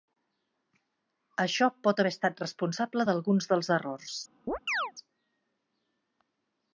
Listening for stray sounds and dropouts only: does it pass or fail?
fail